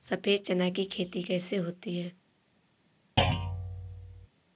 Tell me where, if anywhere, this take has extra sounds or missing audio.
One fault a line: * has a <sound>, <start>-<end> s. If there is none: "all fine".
* has a thud, 3.2-4.3 s